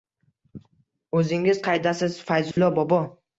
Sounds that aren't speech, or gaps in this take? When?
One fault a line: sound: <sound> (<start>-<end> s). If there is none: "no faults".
sound: dropout (2.5-2.6 s)